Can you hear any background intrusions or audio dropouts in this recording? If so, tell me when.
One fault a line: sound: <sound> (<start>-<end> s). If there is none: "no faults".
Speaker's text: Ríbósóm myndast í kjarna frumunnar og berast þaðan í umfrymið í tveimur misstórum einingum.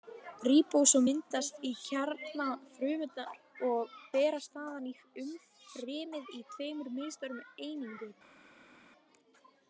no faults